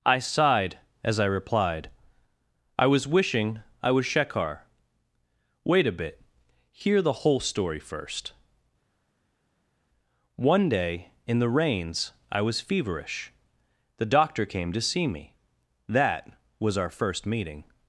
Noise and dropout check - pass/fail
pass